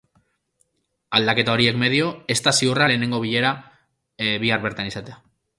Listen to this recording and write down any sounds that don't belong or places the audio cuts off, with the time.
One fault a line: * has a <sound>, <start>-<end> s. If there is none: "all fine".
all fine